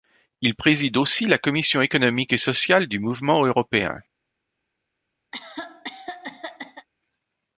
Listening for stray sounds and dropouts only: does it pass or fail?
fail